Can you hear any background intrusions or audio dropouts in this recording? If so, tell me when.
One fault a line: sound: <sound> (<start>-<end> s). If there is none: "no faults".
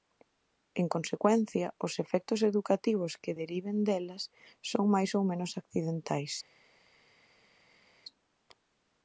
no faults